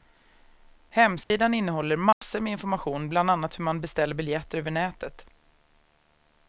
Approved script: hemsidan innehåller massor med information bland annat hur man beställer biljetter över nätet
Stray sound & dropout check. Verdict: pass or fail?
fail